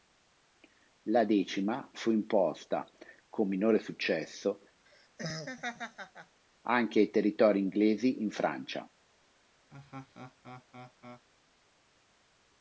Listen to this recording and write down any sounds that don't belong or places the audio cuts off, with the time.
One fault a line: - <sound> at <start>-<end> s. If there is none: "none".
- laugh at 4.9-6.4 s
- laugh at 9.7-11.2 s